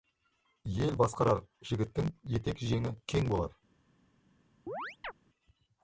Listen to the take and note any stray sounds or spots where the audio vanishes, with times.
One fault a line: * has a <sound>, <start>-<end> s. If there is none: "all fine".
* has a chirp, 4.7-5.1 s